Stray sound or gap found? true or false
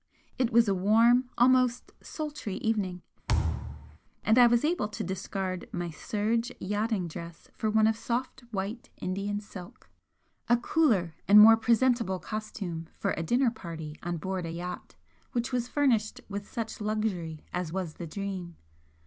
true